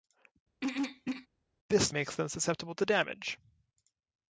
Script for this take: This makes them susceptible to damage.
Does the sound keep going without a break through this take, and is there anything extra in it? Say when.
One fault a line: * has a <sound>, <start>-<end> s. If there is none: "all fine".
* has a throat clearing, 0.6-1.3 s